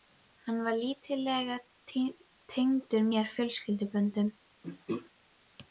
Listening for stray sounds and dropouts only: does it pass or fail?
fail